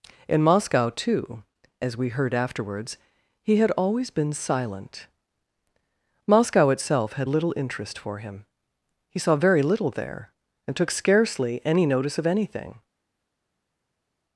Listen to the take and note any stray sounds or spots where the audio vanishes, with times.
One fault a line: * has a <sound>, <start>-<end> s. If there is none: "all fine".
all fine